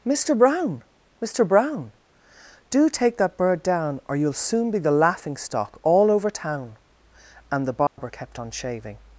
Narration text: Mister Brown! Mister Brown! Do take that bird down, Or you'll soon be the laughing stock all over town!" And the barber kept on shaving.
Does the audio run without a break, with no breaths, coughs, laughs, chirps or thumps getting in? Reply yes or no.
no